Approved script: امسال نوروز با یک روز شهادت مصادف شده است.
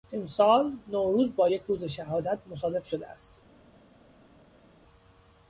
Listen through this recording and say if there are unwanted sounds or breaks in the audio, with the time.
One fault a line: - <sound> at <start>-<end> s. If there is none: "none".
none